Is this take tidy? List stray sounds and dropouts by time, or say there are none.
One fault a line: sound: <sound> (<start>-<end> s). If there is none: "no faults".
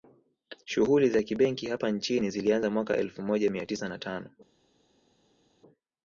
no faults